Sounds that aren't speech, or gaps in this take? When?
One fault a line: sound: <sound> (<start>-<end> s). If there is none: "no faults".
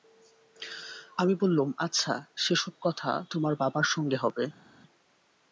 no faults